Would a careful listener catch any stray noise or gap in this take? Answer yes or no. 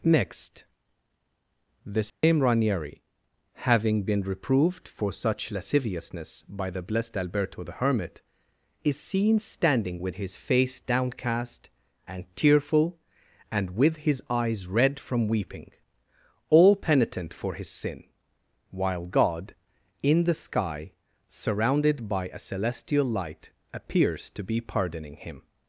yes